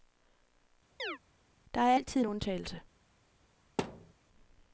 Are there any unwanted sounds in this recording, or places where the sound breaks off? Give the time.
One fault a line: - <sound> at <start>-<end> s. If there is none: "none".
- chirp at 1.0-1.2 s
- thud at 3.8-4.1 s